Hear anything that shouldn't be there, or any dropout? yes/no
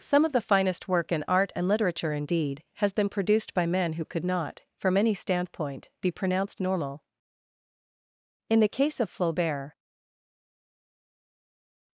no